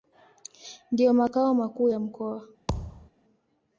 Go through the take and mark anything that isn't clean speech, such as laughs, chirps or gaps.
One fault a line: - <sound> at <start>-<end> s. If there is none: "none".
- thud at 2.7-3.1 s